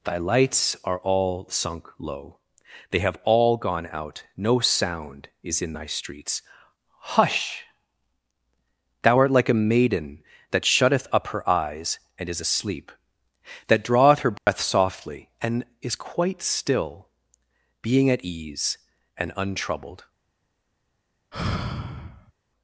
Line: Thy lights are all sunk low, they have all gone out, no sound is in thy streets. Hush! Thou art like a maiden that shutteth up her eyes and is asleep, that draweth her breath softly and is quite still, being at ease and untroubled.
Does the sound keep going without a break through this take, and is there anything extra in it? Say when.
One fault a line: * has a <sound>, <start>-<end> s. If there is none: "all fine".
* has a dropout, 14.4-14.5 s
* has a sigh, 21.3-22.3 s